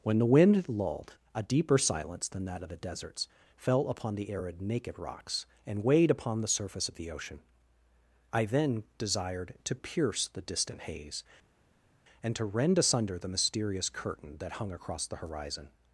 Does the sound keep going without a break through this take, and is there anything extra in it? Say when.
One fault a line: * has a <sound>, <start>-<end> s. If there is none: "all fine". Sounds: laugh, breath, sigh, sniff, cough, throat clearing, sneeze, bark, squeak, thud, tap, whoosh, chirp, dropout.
all fine